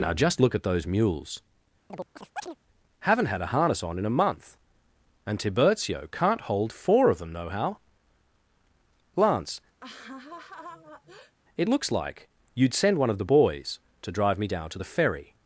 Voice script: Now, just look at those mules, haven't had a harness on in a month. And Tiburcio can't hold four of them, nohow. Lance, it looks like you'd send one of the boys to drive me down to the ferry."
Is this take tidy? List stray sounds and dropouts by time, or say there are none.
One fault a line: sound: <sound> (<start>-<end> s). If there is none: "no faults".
sound: chirp (1.9-2.6 s)
sound: laugh (9.8-11.3 s)